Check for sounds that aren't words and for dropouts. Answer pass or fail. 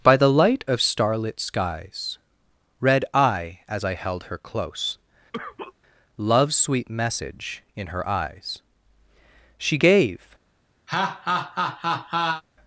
fail